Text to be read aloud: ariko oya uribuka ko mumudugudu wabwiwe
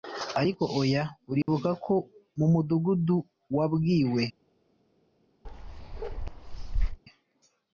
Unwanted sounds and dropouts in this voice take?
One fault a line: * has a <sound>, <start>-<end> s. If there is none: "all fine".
* has a dropout, 1.4-1.5 s
* has a bark, 5.4-7.0 s